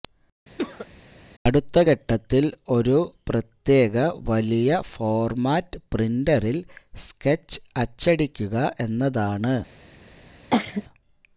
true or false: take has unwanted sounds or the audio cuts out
true